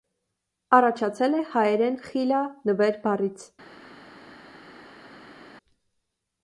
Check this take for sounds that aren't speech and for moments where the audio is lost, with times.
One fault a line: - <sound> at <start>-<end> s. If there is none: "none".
none